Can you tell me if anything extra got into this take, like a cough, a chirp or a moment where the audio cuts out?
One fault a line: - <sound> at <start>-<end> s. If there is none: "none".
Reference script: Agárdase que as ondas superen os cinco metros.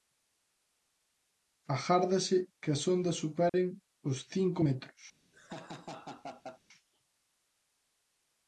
- dropout at 3.5-3.5 s
- laugh at 5.3-6.6 s